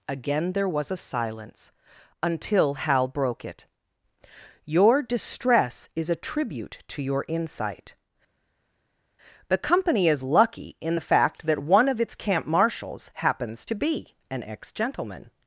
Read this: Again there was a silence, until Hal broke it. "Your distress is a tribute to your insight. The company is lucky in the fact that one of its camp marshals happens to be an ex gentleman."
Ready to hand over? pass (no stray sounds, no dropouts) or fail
pass